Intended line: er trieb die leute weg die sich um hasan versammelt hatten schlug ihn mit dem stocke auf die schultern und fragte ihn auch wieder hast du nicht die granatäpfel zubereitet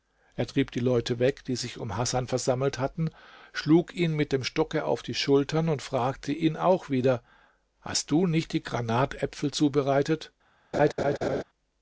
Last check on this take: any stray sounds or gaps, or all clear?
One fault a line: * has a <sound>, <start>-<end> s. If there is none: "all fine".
* has a laugh, 10.7-11.4 s